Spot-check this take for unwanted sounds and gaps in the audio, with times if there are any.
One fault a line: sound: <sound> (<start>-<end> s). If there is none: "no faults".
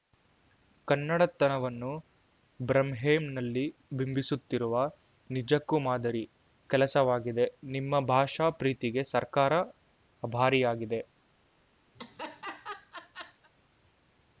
sound: laugh (11.9-13.5 s)